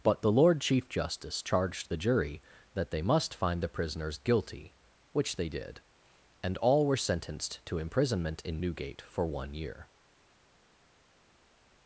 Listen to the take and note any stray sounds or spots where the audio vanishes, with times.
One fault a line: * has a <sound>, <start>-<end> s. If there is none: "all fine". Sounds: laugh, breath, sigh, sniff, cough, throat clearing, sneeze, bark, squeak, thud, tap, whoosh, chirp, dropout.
all fine